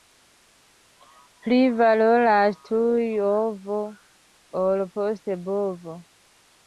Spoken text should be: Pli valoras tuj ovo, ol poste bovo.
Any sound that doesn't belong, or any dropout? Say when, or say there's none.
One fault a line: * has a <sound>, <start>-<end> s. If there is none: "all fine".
all fine